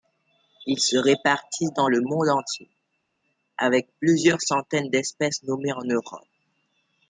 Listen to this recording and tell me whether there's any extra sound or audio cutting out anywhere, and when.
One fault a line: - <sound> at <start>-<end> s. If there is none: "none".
none